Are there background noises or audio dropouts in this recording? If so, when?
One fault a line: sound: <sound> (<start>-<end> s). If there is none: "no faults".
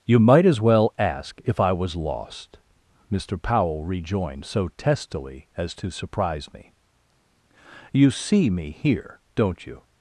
no faults